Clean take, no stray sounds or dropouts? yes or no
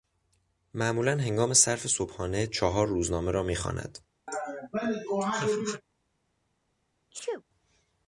no